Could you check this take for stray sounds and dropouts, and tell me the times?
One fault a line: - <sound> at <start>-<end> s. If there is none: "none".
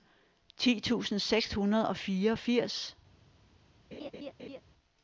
- laugh at 3.9-4.6 s